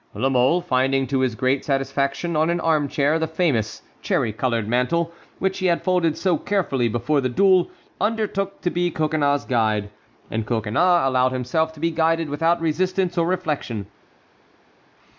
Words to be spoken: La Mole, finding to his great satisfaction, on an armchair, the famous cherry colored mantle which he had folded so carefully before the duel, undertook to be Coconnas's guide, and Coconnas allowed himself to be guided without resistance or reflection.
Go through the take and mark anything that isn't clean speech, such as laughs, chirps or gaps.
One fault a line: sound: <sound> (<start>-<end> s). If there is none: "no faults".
no faults